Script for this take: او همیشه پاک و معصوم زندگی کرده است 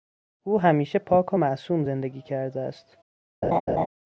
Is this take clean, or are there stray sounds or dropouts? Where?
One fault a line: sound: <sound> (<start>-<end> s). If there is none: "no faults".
sound: laugh (3.4-3.9 s)